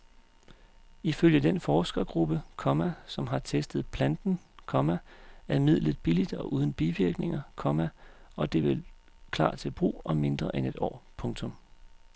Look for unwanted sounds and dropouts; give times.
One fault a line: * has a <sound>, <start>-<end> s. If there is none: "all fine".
all fine